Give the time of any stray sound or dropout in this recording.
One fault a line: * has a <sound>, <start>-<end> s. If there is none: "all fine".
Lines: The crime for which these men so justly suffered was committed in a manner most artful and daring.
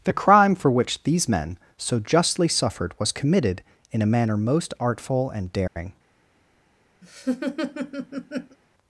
* has a dropout, 5.7-5.8 s
* has a laugh, 7.0-8.6 s